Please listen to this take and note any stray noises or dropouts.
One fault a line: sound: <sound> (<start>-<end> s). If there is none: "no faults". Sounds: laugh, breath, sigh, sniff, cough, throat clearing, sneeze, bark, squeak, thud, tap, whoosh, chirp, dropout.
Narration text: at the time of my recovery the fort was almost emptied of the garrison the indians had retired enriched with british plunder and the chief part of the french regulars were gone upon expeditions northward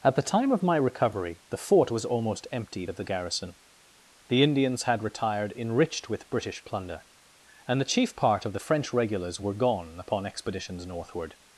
no faults